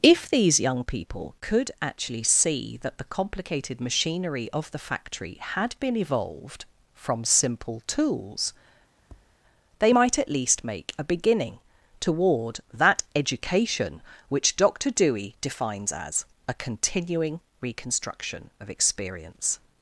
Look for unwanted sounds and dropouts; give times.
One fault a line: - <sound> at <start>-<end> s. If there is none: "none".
- tap at 9.0-9.4 s